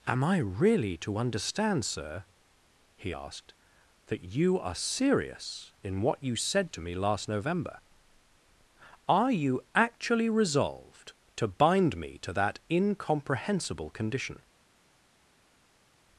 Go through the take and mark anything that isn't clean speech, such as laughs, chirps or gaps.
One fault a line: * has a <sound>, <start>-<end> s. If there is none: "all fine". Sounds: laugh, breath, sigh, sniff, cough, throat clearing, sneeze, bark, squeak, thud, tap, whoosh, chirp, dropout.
all fine